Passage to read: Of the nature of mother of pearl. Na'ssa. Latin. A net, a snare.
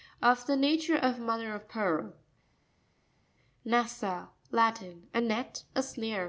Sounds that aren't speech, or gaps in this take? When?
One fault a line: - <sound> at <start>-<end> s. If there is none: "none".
none